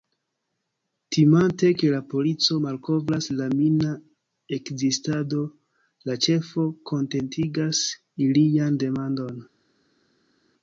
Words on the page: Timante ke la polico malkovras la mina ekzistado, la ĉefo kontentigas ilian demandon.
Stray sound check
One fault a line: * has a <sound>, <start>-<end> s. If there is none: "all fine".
all fine